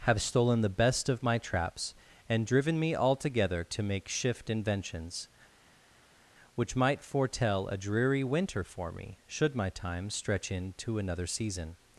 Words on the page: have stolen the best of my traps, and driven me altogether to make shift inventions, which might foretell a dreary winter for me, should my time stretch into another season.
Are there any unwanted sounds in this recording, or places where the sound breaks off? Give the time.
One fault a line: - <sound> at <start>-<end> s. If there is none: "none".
none